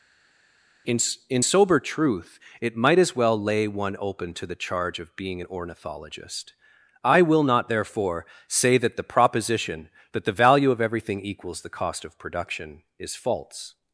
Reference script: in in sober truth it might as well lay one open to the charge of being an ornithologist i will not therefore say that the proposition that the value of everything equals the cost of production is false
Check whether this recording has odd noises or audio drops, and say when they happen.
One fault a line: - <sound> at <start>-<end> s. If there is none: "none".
none